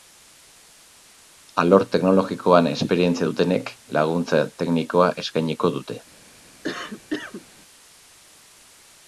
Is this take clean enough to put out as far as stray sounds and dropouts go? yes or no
no